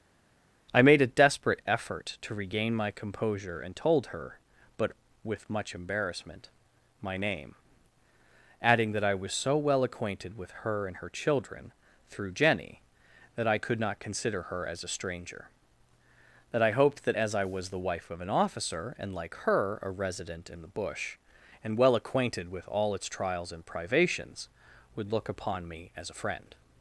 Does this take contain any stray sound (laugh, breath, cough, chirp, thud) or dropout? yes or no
no